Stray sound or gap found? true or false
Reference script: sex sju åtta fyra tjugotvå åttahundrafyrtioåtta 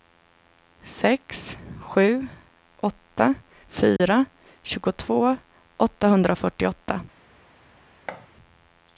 true